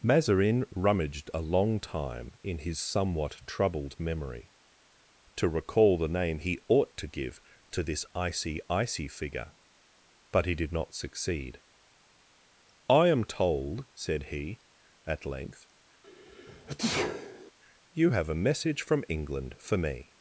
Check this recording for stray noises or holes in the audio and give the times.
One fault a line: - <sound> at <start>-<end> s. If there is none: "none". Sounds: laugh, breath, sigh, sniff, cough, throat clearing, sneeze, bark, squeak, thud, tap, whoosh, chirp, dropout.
- sneeze at 16.0-17.5 s